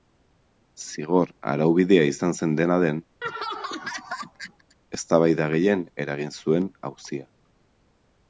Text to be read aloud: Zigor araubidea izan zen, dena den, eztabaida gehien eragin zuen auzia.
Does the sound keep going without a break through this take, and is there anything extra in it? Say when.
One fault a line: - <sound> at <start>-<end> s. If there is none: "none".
- laugh at 3.2-4.8 s